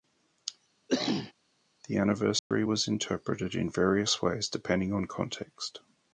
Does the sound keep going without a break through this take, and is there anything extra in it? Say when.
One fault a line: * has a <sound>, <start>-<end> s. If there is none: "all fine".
* has a cough, 0.9-1.3 s
* has a dropout, 2.4-2.5 s